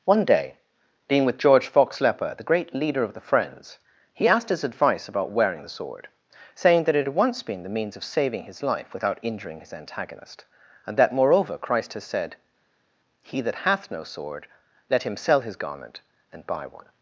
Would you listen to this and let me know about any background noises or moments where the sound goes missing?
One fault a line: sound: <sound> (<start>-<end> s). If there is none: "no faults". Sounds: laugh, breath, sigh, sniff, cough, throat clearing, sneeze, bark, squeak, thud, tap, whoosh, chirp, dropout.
no faults